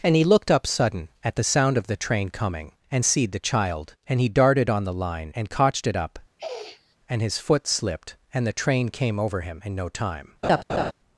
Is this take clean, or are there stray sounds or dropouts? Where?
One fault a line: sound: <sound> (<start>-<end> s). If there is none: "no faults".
sound: sniff (6.4-7.0 s)
sound: laugh (10.4-10.9 s)